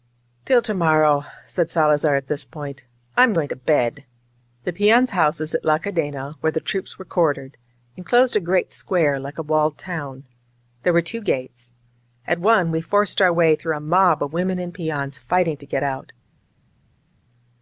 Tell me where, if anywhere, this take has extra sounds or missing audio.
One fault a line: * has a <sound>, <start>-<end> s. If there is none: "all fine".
all fine